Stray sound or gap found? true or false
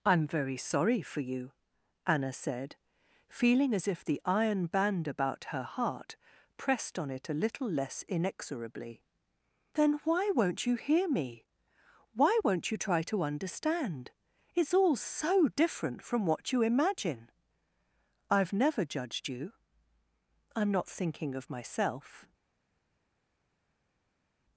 false